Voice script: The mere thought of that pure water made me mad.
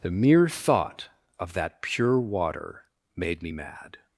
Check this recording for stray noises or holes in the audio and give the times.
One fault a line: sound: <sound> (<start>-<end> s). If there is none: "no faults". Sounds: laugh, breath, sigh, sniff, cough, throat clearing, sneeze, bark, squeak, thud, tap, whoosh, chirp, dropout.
no faults